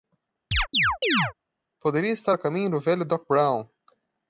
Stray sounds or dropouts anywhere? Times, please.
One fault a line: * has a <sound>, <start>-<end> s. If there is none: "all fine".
* has a chirp, 0.5-1.3 s